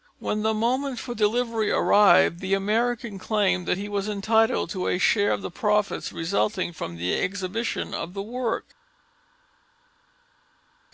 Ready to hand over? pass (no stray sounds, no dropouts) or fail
pass